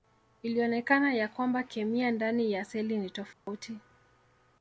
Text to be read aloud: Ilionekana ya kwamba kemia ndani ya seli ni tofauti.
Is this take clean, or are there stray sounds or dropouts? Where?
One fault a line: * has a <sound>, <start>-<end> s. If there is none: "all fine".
* has a dropout, 3.3-3.5 s